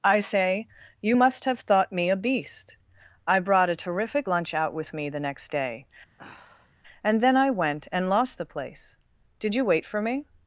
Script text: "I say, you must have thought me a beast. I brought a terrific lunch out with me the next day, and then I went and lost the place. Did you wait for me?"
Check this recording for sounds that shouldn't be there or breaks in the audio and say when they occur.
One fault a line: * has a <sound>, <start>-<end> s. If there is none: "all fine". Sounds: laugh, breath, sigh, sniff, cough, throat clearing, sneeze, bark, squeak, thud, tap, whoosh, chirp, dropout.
* has a sigh, 6.2-6.7 s